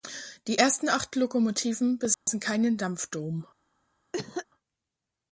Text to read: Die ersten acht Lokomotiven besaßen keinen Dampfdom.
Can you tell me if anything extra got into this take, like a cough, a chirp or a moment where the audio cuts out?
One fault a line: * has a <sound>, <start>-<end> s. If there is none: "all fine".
* has a dropout, 2.1-2.3 s
* has a cough, 4.1-4.5 s